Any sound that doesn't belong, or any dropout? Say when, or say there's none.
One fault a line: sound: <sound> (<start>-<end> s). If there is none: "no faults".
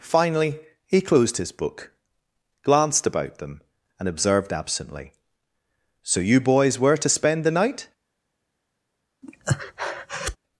sound: breath (9.2-10.4 s)